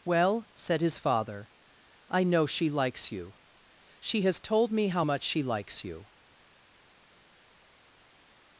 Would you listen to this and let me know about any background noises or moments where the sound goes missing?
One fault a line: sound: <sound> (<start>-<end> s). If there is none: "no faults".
no faults